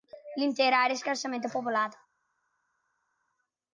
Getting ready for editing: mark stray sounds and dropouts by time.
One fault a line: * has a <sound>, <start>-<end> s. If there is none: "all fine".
all fine